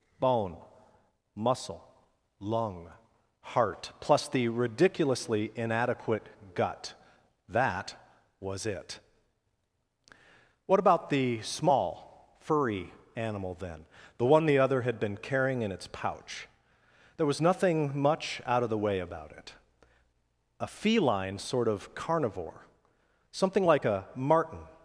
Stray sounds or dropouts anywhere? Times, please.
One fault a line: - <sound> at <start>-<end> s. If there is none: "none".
none